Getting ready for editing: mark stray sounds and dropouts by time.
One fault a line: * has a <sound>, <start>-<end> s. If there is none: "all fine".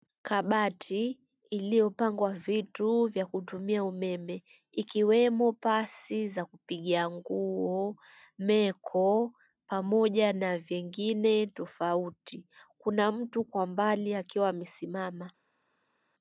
all fine